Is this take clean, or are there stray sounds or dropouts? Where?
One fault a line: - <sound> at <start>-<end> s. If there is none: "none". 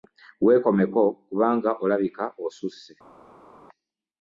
none